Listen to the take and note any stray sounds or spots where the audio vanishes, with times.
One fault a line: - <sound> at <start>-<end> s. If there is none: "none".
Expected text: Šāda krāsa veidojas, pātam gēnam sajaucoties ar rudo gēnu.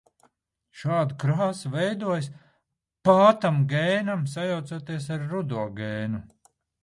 none